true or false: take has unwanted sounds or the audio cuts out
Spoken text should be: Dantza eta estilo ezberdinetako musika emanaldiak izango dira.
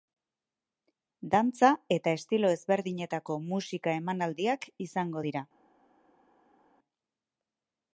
false